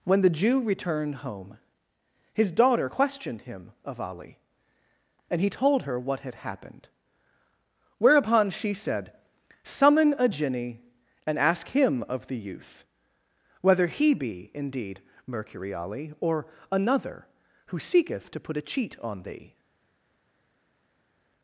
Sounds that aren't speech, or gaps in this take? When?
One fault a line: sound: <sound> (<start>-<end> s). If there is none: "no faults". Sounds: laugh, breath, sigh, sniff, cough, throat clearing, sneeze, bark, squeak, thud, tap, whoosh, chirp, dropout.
no faults